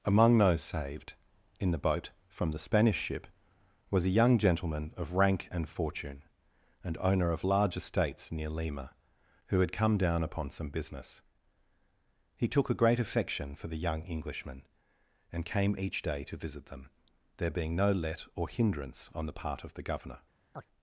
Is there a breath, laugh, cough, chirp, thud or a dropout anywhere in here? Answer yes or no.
yes